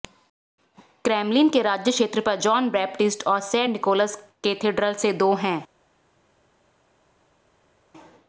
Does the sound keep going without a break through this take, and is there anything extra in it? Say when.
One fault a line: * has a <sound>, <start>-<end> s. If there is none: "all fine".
all fine